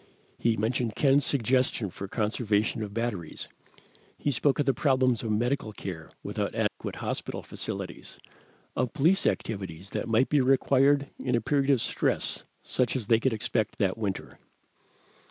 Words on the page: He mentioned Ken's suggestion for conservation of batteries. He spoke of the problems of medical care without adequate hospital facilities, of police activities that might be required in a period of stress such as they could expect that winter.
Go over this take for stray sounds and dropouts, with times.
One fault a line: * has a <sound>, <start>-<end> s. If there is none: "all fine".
* has a dropout, 6.7-6.8 s